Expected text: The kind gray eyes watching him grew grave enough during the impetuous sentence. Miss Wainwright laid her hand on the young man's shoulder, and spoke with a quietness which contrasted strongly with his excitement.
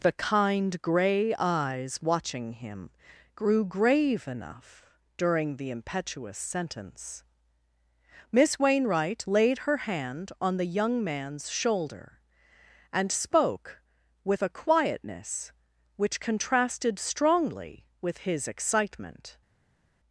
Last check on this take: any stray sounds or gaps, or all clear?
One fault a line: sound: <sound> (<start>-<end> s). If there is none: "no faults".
no faults